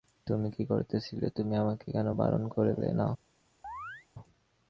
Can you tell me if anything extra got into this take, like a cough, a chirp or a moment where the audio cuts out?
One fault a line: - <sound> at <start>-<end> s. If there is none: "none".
- chirp at 3.6-4.1 s